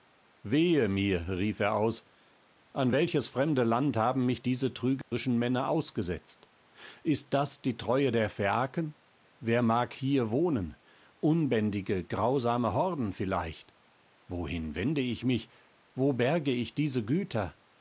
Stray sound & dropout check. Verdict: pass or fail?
fail